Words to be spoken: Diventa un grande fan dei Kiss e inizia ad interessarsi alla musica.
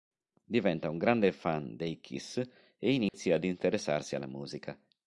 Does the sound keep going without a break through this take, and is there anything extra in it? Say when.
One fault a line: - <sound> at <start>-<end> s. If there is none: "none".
- dropout at 3.1-3.1 s